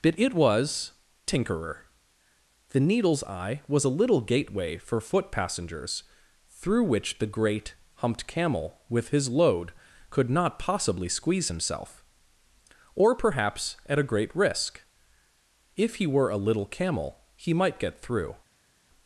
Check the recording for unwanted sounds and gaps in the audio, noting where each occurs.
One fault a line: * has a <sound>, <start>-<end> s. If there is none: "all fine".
all fine